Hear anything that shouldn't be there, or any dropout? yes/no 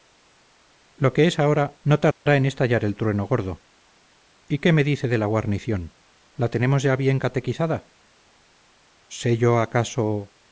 yes